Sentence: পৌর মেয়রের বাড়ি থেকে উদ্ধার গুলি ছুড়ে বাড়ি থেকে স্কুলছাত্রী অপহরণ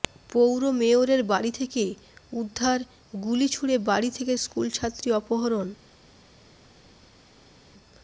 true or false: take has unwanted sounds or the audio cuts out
false